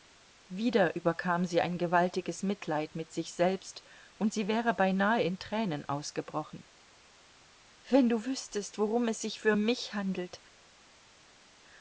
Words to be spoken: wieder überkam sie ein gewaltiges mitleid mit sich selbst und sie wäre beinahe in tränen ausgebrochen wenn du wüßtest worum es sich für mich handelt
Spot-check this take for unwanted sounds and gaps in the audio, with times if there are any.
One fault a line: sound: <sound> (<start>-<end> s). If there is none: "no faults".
no faults